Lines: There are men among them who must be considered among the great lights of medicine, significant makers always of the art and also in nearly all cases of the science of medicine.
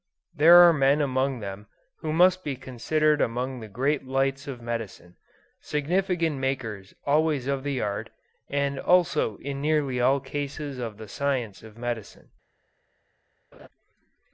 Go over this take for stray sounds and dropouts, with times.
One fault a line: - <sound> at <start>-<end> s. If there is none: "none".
- laugh at 13.5-13.7 s